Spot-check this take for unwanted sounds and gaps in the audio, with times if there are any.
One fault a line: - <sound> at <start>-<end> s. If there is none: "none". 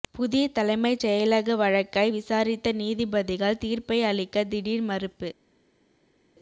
none